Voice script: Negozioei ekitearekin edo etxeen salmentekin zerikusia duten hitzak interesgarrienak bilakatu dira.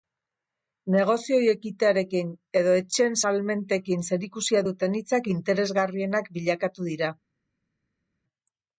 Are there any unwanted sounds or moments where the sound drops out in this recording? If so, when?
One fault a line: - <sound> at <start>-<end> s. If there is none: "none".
none